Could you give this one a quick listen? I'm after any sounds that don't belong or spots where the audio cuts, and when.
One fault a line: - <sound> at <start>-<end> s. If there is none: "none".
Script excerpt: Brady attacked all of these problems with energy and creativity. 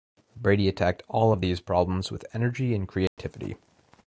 - dropout at 3.1-3.2 s